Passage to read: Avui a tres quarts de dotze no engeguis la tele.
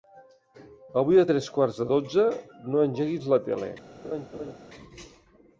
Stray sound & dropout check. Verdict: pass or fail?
fail